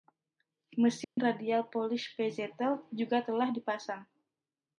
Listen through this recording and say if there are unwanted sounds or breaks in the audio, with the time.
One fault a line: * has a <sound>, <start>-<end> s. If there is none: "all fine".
* has a dropout, 1.0-1.2 s